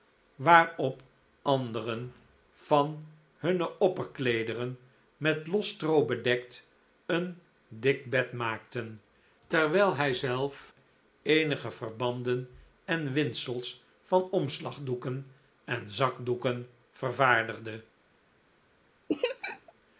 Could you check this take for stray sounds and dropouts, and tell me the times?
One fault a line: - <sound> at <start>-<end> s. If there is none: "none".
- laugh at 19.1-19.7 s